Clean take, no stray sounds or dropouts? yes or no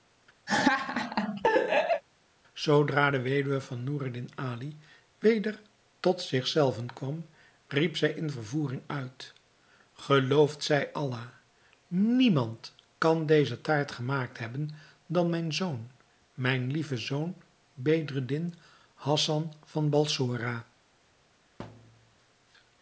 no